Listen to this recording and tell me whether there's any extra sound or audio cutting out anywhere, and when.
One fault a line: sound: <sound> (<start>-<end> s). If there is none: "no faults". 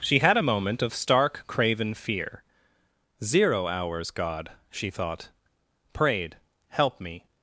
no faults